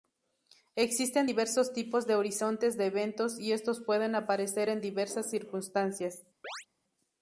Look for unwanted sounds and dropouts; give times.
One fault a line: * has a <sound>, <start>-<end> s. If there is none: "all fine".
* has a chirp, 6.4-6.7 s